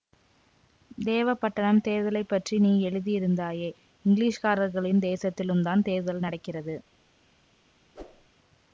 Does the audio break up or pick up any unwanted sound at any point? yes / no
yes